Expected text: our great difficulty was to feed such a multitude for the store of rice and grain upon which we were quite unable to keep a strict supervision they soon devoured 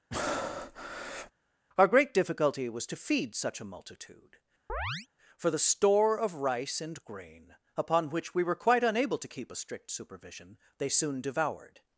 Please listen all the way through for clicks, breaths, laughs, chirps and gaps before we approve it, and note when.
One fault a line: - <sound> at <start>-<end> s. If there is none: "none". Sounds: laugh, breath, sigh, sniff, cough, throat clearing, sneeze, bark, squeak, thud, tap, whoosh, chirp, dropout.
- breath at 0.1-1.3 s
- chirp at 4.7-5.1 s